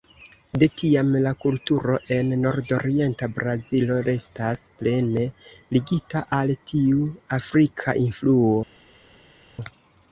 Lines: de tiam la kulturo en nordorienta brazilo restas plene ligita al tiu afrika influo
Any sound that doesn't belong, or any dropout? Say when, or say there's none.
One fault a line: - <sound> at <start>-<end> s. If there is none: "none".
none